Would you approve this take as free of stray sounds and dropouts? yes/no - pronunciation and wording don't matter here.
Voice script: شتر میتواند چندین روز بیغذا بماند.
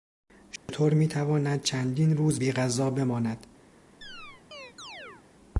no